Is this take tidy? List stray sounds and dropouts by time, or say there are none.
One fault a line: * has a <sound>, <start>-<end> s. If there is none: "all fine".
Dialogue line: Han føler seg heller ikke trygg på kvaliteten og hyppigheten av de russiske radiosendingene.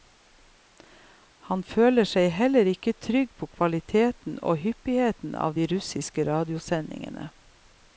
all fine